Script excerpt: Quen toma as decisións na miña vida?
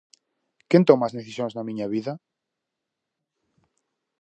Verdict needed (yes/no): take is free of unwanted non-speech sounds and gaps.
yes